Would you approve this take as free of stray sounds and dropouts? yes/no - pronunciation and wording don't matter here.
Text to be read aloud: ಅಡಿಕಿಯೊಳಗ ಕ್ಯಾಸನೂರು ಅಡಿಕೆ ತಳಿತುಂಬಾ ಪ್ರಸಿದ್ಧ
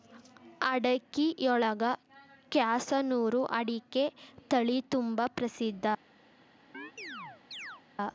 no